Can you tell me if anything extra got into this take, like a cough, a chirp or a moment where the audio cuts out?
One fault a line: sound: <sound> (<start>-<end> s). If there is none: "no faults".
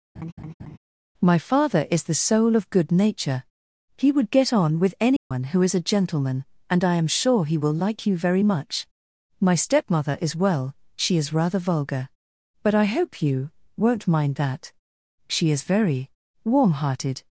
sound: laugh (0.2-0.8 s)
sound: dropout (5.2-5.3 s)